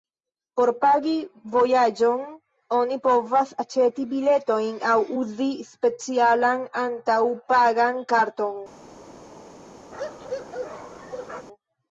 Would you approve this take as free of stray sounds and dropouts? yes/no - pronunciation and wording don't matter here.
no